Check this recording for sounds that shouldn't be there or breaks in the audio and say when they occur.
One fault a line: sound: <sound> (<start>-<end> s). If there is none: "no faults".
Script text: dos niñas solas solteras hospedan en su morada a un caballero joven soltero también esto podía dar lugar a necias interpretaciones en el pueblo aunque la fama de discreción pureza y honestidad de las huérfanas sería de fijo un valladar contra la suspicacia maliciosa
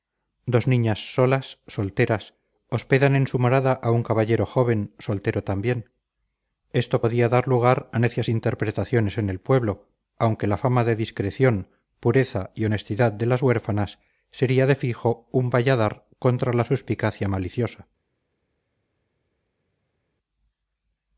no faults